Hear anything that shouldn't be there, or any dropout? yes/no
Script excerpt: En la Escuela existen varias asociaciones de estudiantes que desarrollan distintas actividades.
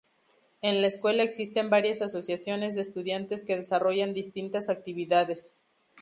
no